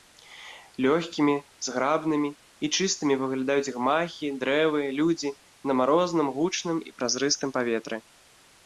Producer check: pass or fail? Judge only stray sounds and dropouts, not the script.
pass